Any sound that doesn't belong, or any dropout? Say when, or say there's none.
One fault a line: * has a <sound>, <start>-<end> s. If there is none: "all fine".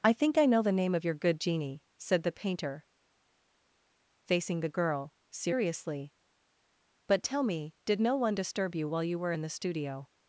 all fine